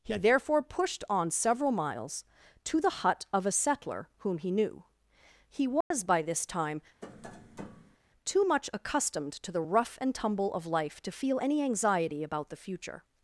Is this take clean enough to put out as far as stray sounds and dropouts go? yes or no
no